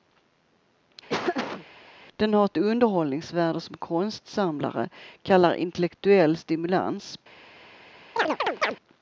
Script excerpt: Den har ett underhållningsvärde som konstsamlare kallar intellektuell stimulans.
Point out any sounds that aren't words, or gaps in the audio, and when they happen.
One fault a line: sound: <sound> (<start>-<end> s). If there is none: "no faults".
sound: laugh (1.1-1.7 s)
sound: chirp (8.2-8.8 s)